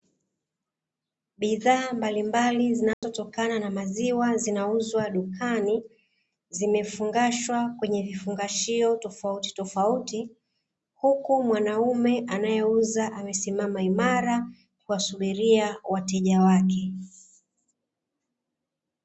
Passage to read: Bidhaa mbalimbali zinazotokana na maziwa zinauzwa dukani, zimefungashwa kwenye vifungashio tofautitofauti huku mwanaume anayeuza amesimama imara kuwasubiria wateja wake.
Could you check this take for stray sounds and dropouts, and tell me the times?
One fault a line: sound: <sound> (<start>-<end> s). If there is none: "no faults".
sound: dropout (2.9-3.0 s)